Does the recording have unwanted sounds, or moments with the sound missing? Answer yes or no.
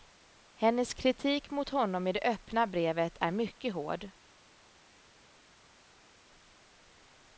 no